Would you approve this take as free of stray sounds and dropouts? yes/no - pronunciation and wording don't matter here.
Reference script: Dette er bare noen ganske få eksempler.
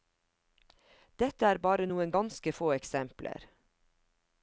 yes